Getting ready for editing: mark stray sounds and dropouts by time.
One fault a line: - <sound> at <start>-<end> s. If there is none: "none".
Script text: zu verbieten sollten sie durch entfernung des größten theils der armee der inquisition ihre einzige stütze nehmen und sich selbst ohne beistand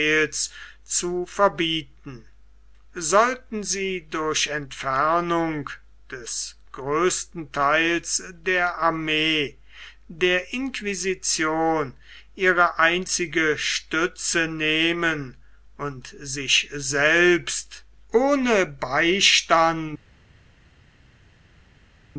none